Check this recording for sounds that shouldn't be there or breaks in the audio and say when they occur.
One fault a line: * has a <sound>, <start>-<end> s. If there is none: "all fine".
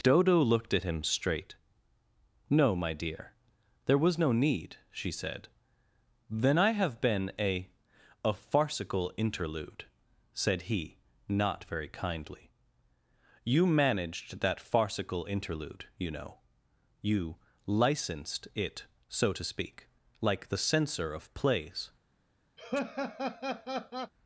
* has a laugh, 22.6-24.1 s